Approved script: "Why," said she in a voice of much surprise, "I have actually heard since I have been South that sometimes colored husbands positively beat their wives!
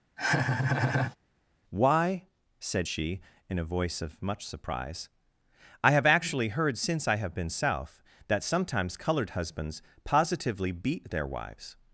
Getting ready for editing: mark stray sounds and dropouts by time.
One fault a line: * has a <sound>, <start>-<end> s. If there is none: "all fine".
* has a laugh, 0.2-1.2 s